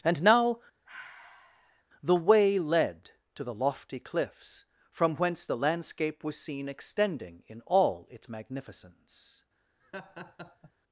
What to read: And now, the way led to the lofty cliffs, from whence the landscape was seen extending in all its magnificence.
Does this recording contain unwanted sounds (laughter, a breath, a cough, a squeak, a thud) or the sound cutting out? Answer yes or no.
yes